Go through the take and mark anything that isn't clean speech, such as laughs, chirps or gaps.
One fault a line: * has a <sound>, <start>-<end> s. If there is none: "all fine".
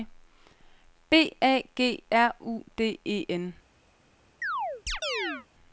* has a chirp, 4.4-5.5 s